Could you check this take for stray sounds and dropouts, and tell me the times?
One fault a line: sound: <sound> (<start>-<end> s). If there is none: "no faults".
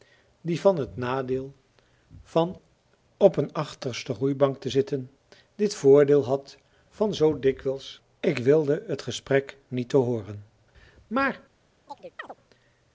sound: chirp (11.9-12.4 s)